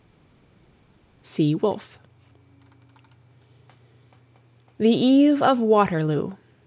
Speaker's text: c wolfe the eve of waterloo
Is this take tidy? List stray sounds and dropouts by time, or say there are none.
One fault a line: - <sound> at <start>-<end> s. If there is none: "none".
none